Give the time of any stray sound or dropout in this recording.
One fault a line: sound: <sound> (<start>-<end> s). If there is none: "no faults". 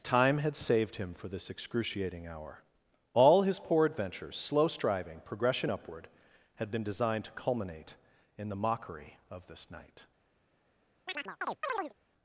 sound: chirp (11.1-11.9 s)